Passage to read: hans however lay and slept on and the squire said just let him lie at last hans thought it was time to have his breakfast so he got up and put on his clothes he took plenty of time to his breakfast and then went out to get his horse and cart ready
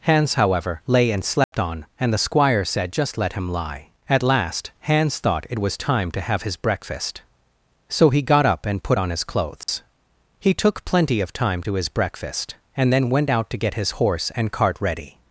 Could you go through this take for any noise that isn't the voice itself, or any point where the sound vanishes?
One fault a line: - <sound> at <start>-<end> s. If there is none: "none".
- dropout at 1.4-1.5 s
- dropout at 9.6-9.7 s